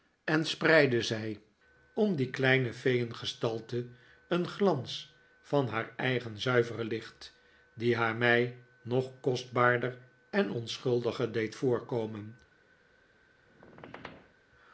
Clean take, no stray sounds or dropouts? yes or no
no